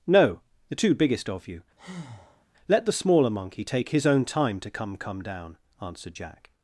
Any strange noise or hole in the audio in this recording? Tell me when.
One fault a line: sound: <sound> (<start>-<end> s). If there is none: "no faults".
sound: breath (1.8-2.5 s)